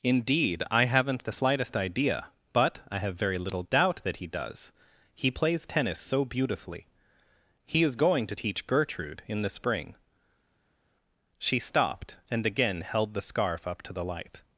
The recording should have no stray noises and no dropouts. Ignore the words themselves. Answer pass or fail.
pass